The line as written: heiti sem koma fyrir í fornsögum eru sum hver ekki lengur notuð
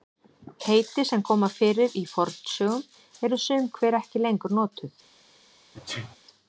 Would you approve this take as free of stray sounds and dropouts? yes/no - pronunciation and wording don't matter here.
no